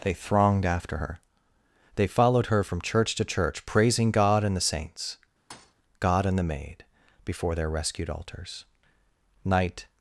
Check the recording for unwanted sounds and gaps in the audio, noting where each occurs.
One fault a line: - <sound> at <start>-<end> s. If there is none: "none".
- thud at 5.5-5.7 s